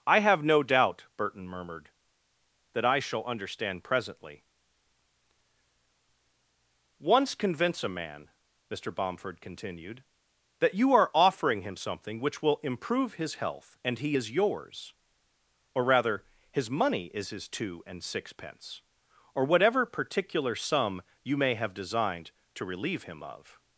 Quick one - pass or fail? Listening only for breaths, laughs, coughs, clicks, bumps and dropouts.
pass